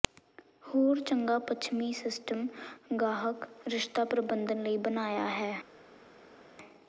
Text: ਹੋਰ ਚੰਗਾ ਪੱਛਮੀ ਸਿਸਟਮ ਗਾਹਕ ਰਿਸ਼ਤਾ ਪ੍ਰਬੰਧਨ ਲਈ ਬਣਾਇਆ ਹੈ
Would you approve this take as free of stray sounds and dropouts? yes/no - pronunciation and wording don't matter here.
yes